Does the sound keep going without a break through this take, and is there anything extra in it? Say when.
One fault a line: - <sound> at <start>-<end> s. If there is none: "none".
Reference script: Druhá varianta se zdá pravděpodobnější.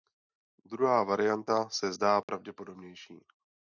- dropout at 2.2-2.3 s